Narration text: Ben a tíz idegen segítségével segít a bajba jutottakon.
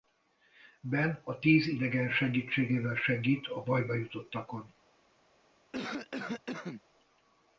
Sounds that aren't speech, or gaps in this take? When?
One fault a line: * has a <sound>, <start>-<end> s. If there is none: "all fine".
* has a cough, 5.7-6.8 s